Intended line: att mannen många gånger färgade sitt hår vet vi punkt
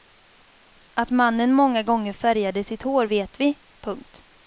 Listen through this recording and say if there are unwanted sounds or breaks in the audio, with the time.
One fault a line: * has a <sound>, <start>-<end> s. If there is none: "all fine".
all fine